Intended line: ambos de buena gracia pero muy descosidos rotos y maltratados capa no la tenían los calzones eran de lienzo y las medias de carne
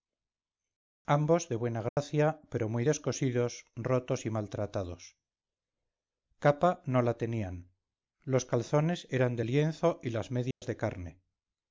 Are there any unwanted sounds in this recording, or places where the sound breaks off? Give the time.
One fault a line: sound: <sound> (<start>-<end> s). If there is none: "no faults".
sound: dropout (1.9-2.0 s)
sound: dropout (10.5-10.6 s)